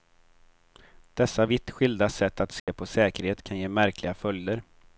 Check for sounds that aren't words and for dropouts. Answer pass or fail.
fail